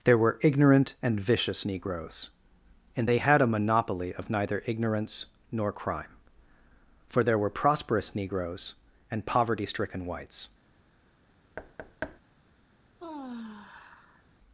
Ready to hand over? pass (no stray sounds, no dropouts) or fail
fail